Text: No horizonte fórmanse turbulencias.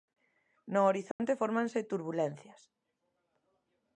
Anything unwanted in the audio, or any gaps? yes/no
yes